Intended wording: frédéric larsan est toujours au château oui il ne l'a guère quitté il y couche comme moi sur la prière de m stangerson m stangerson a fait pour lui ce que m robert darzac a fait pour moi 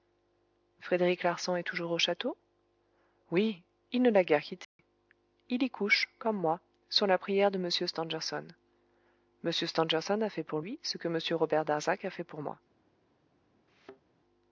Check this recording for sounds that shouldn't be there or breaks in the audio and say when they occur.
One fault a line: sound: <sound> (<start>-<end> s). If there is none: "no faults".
sound: dropout (4.6-4.8 s)
sound: thud (13.7-14.0 s)